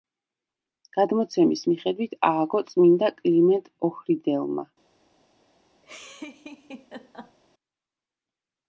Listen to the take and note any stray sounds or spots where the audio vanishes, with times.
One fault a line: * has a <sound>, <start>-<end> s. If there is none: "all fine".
* has a laugh, 5.8-7.4 s